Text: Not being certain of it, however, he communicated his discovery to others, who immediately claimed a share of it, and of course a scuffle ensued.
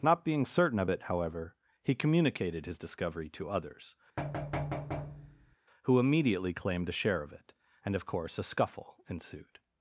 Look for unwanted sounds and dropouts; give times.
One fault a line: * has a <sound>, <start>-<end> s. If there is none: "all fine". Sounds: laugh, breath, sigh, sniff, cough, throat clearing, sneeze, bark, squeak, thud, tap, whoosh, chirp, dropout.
* has a thud, 4.2-5.6 s